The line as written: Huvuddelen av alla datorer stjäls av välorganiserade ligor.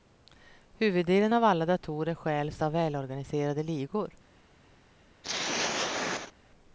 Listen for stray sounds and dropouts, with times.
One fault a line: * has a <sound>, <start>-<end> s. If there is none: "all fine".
* has a throat clearing, 5.2-6.3 s